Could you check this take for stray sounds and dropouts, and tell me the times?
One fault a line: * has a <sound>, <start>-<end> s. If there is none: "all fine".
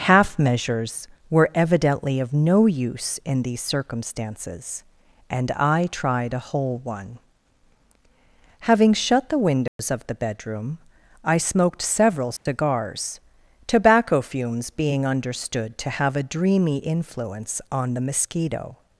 * has a dropout, 9.7-9.8 s
* has a dropout, 12.4-12.5 s